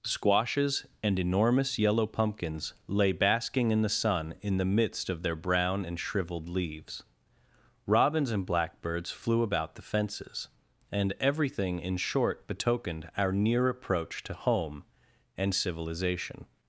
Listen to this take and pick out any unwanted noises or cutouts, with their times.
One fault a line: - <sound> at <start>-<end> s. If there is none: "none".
none